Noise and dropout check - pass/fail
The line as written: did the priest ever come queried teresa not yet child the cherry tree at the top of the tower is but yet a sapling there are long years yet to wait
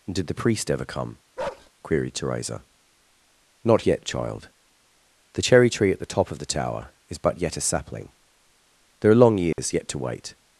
fail